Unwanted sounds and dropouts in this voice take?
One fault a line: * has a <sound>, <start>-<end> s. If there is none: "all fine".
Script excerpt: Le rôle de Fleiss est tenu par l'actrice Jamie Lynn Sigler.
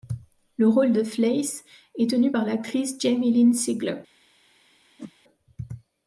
* has a whoosh, 5.0-5.1 s